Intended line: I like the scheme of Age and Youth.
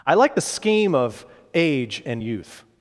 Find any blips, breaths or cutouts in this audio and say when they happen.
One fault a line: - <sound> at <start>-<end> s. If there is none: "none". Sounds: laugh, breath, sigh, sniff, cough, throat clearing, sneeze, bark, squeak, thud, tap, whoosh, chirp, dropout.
none